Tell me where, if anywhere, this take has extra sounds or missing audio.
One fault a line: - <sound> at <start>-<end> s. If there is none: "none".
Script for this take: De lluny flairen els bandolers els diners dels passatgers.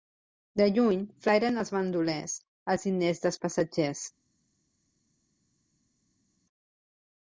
none